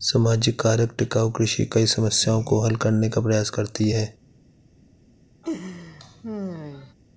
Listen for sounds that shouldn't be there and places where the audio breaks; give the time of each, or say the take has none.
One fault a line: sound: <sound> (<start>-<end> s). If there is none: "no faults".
sound: laugh (5.4-6.9 s)